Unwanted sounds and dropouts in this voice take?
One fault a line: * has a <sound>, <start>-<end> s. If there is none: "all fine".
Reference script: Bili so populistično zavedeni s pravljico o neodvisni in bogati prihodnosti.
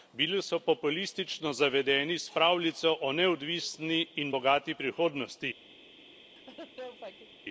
* has a laugh, 6.4-7.4 s